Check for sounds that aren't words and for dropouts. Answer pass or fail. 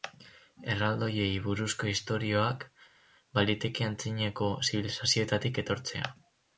pass